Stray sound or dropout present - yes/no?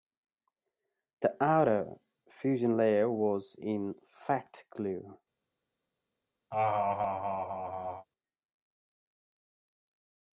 yes